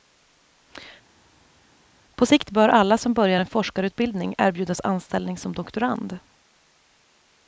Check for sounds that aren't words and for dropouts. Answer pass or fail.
pass